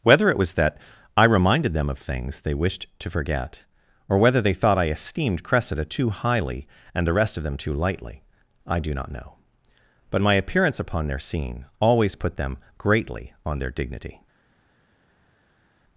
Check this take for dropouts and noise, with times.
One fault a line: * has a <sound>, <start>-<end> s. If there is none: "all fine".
all fine